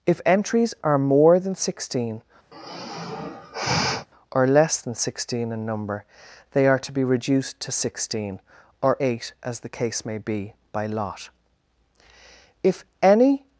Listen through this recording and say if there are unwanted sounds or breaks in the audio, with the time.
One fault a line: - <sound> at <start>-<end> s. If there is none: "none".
- sigh at 2.5-4.1 s